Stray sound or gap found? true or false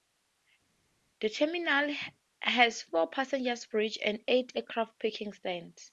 false